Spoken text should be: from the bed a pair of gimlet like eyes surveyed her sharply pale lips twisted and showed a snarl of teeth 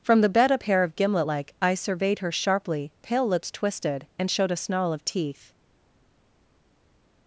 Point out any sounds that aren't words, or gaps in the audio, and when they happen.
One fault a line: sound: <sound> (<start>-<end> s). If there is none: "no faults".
no faults